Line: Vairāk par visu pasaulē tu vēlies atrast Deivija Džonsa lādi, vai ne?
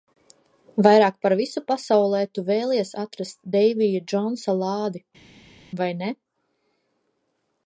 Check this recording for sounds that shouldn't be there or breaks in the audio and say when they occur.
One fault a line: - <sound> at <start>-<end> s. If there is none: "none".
none